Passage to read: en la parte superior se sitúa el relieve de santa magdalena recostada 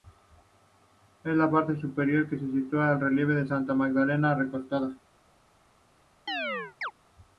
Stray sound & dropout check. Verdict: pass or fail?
fail